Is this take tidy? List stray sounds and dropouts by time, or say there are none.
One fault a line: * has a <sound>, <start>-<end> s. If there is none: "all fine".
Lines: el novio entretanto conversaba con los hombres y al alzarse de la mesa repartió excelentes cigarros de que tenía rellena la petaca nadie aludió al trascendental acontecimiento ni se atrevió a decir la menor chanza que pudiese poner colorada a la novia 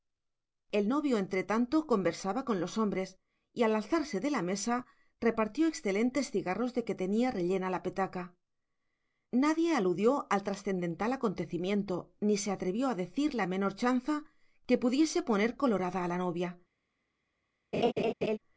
* has a laugh, 17.7-18.4 s